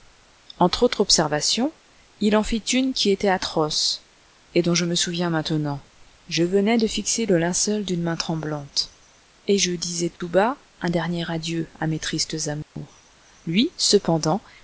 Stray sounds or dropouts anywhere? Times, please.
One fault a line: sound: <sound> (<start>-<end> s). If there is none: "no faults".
sound: dropout (10.2-10.2 s)
sound: dropout (12.6-12.8 s)